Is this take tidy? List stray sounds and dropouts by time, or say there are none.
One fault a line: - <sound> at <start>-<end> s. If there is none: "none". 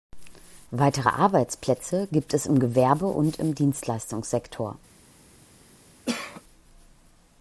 - cough at 6.1-6.4 s